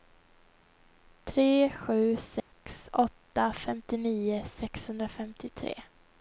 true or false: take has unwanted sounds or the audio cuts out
true